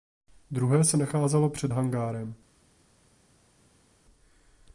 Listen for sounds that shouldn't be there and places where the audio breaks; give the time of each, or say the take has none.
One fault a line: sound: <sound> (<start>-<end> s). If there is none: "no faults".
no faults